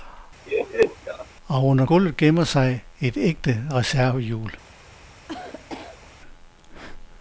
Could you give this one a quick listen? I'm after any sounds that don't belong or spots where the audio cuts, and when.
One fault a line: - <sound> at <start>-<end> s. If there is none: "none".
- laugh at 0.5-1.3 s
- cough at 5.3-6.1 s